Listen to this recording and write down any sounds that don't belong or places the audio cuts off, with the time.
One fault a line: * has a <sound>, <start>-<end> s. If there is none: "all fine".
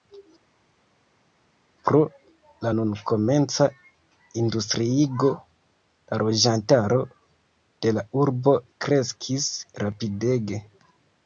all fine